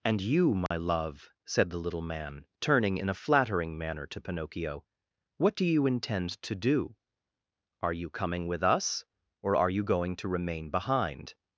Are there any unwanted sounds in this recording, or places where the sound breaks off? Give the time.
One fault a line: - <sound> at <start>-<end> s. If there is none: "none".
- dropout at 0.7-0.7 s